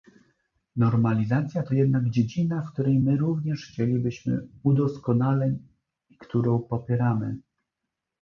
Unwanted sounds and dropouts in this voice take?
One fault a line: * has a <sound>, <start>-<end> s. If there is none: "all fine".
all fine